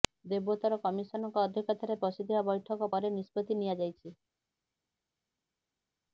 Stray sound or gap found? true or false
false